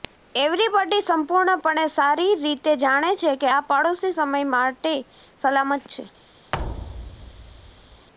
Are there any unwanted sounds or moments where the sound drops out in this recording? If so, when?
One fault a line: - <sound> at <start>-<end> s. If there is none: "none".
- thud at 6.5-8.1 s